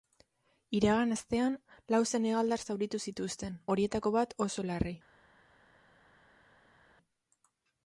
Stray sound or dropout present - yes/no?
no